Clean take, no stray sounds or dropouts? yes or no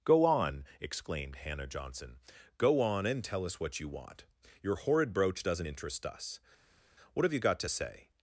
yes